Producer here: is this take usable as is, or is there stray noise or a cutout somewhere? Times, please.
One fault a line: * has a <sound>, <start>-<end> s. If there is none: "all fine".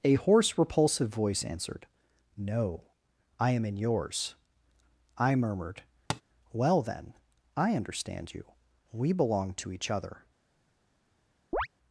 * has a tap, 6.1-6.2 s
* has a chirp, 11.5-11.7 s